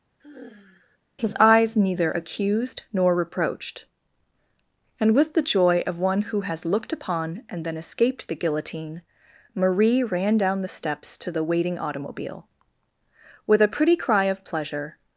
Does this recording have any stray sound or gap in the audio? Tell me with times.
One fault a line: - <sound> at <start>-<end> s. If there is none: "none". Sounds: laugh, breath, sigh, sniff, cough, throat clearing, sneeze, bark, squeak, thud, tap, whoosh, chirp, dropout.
- sigh at 0.2-1.0 s